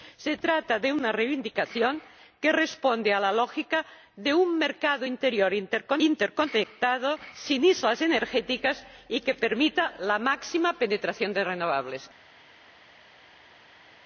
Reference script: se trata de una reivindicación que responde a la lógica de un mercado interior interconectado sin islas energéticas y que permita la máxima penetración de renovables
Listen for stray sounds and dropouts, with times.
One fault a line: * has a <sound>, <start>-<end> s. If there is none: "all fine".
all fine